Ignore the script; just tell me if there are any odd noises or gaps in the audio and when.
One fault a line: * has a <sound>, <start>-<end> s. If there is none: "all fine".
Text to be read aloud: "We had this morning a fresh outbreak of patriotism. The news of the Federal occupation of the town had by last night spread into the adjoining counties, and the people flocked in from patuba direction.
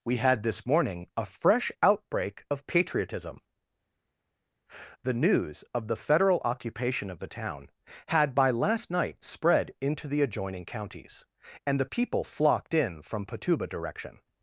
all fine